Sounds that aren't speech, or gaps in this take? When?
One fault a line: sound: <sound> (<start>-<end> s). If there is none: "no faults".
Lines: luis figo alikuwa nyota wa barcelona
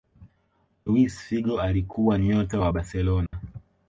sound: dropout (3.3-3.3 s)